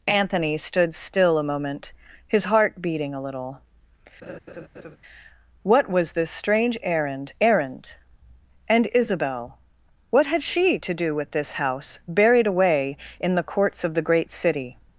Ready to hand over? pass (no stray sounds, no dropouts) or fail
fail